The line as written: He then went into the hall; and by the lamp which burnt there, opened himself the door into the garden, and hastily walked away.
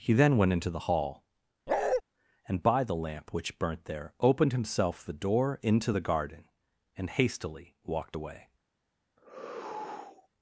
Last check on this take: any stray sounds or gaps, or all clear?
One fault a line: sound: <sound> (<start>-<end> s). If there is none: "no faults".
sound: bark (1.7-2.0 s)
sound: sigh (9.2-10.3 s)